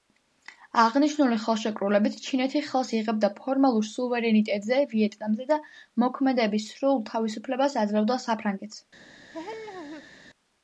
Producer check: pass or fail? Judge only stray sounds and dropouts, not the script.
fail